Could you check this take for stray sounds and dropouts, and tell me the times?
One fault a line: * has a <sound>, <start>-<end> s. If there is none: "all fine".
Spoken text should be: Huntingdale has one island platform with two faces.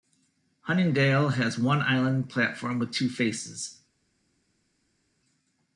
all fine